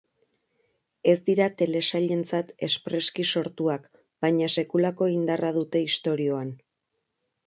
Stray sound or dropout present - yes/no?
no